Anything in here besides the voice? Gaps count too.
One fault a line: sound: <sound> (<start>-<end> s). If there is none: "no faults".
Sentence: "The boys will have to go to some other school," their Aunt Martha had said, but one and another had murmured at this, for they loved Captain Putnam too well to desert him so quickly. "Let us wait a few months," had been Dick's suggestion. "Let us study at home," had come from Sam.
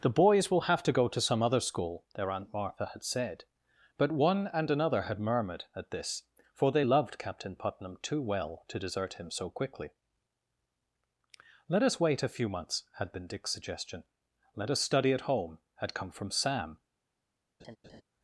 sound: laugh (17.6-18.0 s)